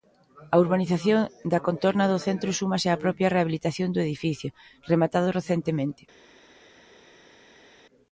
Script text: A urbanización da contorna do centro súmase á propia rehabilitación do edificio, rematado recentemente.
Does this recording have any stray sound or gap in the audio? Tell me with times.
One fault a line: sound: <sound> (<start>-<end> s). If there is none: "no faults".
no faults